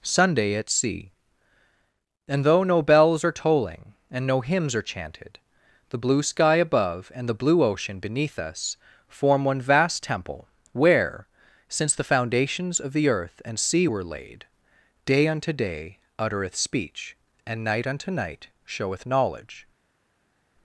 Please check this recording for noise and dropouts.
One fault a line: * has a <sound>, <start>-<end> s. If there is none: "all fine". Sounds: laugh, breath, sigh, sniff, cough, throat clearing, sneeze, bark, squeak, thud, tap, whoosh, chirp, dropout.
all fine